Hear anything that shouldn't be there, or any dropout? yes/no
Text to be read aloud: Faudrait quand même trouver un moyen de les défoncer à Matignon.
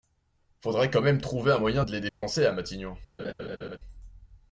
yes